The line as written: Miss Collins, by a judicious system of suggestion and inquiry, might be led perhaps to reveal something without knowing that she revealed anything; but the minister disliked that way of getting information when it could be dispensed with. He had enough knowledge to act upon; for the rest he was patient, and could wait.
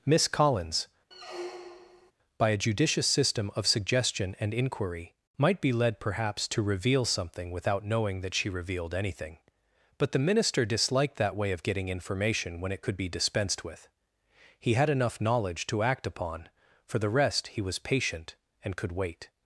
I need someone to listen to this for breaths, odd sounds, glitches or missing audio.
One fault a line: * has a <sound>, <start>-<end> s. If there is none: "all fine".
* has a squeak, 1.1-2.1 s